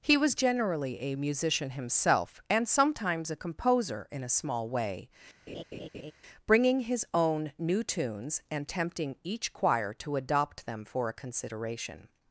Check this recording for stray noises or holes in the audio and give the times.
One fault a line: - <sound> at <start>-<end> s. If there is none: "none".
- laugh at 5.5-6.1 s